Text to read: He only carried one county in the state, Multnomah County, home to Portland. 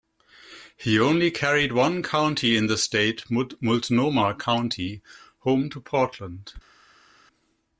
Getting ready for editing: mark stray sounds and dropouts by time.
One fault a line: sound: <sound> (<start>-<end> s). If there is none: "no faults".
no faults